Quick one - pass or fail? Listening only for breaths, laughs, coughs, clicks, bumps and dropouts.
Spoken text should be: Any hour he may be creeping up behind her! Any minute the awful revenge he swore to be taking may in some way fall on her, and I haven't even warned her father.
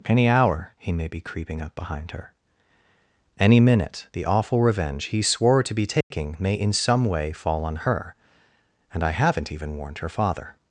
fail